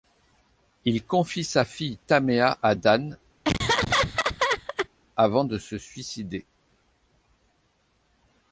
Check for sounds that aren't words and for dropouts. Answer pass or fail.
fail